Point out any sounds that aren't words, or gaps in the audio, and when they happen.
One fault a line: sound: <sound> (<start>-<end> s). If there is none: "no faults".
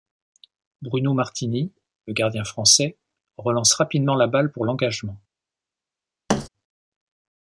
sound: thud (6.3-6.5 s)